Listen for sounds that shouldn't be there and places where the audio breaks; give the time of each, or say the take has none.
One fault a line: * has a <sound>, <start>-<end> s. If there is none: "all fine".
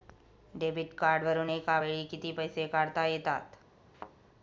* has a thud, 3.9-4.2 s